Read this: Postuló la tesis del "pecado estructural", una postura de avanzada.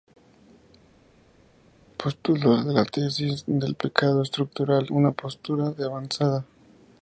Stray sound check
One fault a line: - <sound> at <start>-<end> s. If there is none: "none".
none